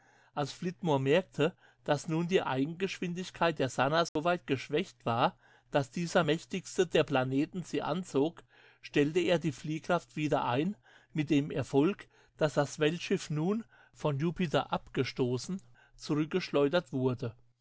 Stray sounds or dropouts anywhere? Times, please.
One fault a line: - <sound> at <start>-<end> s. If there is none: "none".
- dropout at 4.1-4.2 s